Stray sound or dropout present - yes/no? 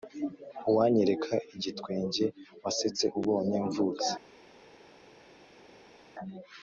no